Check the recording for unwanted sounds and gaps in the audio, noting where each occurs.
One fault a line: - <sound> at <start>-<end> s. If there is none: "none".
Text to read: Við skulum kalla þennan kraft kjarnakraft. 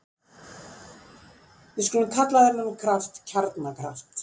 none